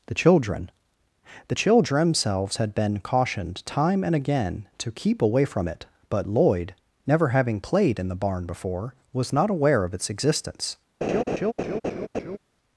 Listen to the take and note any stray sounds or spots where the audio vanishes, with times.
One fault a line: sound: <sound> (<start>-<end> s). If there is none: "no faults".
sound: laugh (11.0-12.4 s)